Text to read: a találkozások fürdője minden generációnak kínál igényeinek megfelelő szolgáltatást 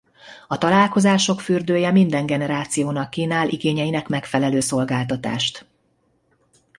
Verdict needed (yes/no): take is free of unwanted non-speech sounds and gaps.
yes